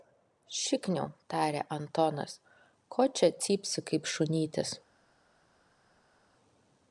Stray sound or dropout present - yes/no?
no